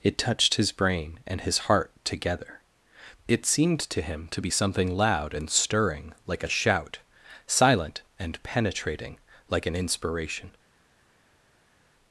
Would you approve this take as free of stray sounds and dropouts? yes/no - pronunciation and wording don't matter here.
yes